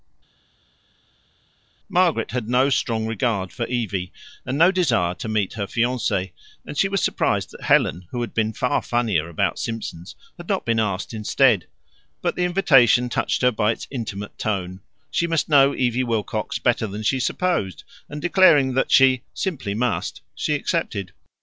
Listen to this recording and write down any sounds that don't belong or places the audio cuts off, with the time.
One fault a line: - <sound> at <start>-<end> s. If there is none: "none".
none